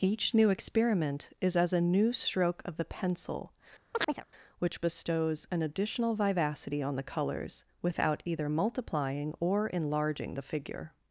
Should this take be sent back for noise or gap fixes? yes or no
yes